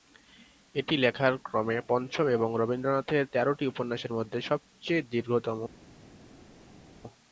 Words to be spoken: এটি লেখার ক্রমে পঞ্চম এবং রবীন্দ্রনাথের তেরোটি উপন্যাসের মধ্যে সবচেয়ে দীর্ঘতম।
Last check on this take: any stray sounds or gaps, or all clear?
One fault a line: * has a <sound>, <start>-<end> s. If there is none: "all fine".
all fine